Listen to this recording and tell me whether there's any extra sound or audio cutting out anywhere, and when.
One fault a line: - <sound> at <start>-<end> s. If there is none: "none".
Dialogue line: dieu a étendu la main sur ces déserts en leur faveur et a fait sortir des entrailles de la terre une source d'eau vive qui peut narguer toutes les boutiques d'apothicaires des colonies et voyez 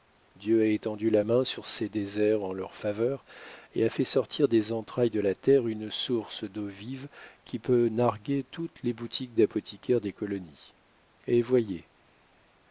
none